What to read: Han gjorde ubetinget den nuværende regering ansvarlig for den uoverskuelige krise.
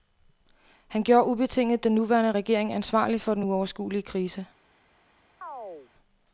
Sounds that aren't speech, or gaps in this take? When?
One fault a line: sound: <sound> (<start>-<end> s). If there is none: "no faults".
sound: chirp (5.4-5.9 s)